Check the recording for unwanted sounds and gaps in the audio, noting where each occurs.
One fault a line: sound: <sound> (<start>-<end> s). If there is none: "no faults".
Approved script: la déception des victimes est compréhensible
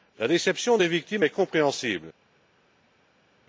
no faults